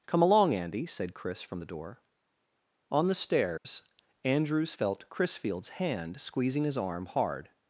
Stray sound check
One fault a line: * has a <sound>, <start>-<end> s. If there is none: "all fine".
* has a dropout, 3.6-3.6 s